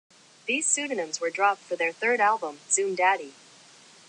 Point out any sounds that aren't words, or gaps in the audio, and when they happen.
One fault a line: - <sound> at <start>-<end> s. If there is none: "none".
none